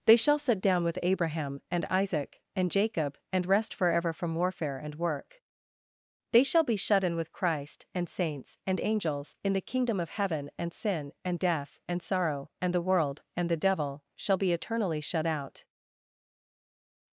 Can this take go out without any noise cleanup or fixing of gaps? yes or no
yes